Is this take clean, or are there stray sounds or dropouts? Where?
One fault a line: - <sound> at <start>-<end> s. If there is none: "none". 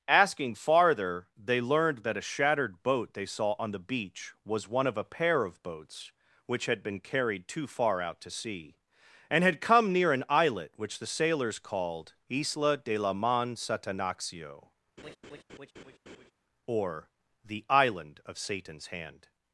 - laugh at 15.0-16.3 s